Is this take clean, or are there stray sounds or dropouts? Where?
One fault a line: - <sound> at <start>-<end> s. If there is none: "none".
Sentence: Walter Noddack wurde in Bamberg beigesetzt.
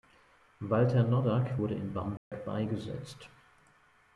- dropout at 2.2-2.3 s